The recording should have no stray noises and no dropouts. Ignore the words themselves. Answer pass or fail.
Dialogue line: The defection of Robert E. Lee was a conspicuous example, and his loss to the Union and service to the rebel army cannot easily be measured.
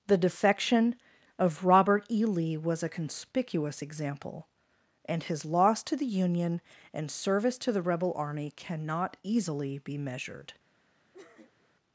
fail